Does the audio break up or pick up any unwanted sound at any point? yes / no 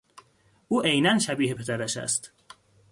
no